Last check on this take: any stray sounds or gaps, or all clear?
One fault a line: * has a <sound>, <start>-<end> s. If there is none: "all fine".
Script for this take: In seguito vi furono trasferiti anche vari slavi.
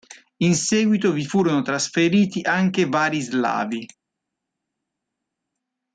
all fine